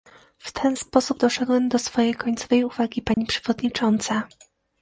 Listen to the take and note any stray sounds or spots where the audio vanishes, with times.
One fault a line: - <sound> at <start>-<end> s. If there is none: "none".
- dropout at 3.1-3.2 s